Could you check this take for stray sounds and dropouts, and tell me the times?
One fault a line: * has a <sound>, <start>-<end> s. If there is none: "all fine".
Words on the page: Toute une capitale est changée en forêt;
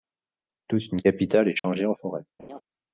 * has a dropout, 1.6-1.6 s
* has a laugh, 2.4-2.6 s